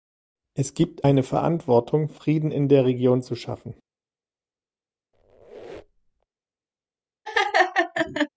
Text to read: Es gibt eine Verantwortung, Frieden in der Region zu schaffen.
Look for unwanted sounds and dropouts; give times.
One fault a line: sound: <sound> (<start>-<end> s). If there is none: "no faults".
sound: squeak (5.1-6.3 s)
sound: laugh (7.3-8.3 s)